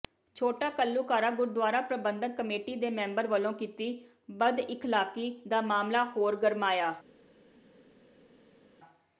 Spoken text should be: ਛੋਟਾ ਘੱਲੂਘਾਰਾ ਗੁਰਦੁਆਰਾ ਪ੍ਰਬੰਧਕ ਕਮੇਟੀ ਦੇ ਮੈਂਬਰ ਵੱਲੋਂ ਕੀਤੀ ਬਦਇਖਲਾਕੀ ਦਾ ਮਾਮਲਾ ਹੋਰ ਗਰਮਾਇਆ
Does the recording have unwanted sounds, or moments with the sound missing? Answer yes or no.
no